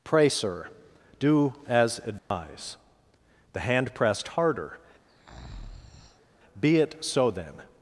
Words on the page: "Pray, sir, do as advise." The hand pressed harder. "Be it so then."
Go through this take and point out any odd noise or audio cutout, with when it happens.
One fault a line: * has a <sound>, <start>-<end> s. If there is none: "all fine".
* has a dropout, 2.2-2.3 s
* has a breath, 5.1-6.3 s